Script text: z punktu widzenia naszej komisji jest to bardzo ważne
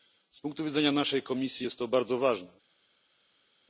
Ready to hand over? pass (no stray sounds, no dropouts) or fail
pass